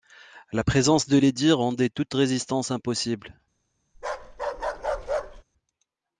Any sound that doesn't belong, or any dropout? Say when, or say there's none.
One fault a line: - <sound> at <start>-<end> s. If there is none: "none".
- bark at 3.9-5.4 s